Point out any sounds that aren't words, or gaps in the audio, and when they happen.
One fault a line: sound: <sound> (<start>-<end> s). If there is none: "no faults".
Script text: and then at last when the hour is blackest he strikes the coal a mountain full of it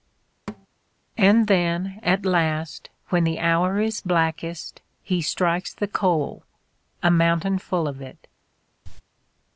sound: thud (0.5-0.7 s)
sound: cough (8.8-9.0 s)